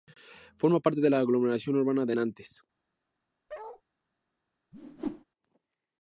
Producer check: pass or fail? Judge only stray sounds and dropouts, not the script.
fail